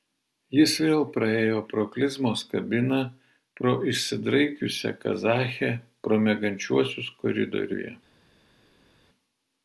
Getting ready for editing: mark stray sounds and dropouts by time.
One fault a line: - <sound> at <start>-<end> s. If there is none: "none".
none